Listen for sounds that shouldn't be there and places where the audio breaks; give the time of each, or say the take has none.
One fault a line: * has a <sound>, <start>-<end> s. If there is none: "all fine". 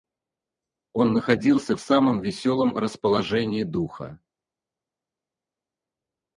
all fine